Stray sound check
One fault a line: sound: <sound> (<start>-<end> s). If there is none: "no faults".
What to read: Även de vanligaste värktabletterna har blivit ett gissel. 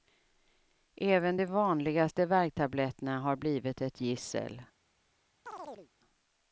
sound: chirp (5.5-5.9 s)